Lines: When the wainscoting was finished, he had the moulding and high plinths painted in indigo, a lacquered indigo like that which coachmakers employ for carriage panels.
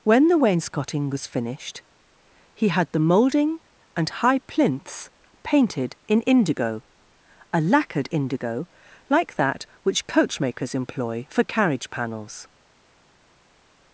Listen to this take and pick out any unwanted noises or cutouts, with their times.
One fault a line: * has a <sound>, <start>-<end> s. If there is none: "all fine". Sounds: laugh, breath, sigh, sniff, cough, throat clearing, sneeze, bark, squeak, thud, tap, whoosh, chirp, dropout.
all fine